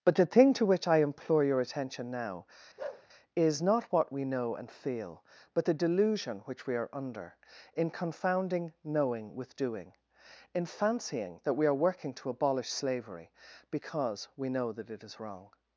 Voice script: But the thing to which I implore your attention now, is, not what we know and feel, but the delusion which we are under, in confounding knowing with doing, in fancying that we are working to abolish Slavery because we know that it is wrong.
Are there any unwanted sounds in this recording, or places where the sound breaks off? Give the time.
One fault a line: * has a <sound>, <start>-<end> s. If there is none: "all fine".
* has a bark, 2.8-3.1 s